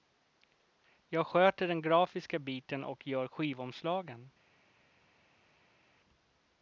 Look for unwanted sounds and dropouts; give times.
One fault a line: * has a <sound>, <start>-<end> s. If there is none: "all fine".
all fine